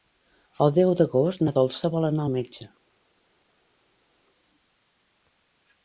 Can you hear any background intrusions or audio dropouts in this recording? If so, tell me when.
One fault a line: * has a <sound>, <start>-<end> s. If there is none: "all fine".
all fine